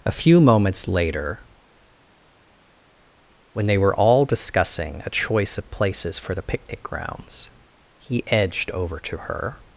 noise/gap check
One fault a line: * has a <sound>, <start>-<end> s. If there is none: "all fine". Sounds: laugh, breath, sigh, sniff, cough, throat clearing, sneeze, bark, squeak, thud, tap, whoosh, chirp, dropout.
all fine